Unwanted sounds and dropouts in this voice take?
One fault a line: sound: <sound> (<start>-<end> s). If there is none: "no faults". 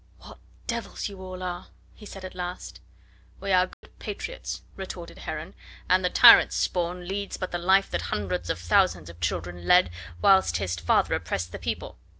sound: dropout (3.7-3.8 s)